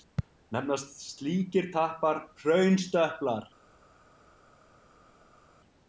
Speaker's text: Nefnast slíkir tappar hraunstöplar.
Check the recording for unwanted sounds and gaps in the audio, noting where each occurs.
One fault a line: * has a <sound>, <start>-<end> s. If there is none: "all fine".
all fine